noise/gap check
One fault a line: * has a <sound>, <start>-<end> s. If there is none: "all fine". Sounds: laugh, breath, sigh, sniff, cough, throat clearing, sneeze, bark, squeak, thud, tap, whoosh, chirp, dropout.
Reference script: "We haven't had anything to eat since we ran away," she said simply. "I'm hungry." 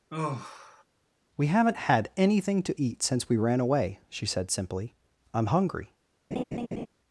* has a sigh, 0.1-0.8 s
* has a laugh, 6.3-6.9 s